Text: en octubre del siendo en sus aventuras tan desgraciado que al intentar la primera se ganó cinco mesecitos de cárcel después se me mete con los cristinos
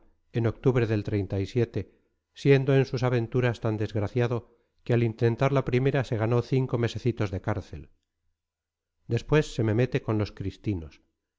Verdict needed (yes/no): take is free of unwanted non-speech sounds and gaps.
yes